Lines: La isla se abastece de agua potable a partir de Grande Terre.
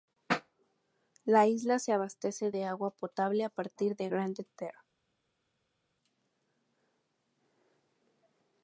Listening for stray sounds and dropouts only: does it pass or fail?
pass